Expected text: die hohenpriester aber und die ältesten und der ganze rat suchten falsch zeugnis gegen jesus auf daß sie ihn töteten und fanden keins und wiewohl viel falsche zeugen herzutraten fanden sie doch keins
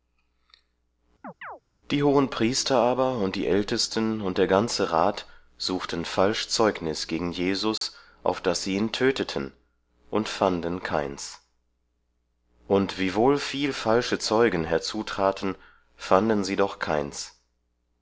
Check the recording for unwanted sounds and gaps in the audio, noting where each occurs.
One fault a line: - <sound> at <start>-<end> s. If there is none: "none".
- chirp at 1.2-1.6 s
- dropout at 7.8-7.8 s